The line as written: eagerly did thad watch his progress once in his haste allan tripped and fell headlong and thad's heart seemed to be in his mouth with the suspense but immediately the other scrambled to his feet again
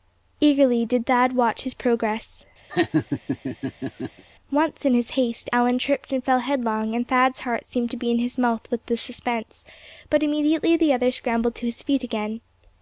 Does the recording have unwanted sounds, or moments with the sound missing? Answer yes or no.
yes